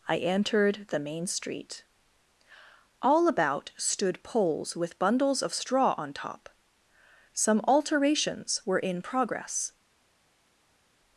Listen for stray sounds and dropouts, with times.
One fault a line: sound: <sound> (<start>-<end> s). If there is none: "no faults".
no faults